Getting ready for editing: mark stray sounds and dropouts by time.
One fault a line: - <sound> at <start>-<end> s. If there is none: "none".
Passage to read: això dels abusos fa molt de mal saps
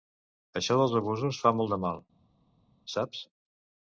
none